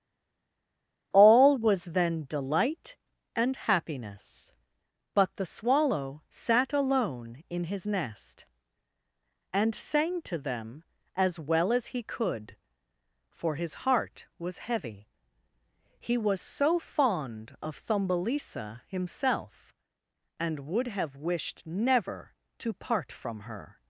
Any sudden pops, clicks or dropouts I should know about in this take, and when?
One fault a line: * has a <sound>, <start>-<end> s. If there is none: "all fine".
all fine